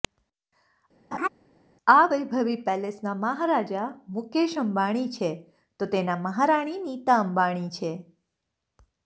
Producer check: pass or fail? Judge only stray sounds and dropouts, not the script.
fail